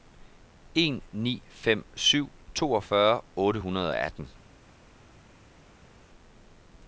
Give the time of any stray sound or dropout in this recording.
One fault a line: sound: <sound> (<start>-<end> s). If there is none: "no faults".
no faults